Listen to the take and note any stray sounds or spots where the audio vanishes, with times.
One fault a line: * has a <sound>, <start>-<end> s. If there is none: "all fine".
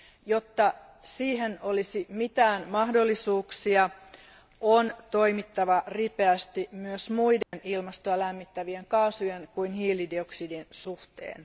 * has a dropout, 7.4-7.5 s